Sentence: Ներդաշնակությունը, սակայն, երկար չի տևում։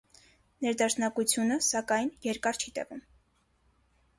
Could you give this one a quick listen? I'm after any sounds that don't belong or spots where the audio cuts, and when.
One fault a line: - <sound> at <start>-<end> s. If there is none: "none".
none